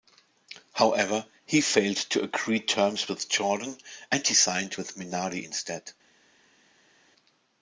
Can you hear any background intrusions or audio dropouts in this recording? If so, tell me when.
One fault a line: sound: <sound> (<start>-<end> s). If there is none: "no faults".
no faults